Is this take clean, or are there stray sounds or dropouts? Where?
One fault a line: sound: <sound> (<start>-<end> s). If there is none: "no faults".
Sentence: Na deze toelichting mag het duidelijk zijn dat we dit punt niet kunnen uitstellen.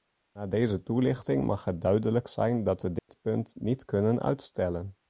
sound: dropout (3.0-3.1 s)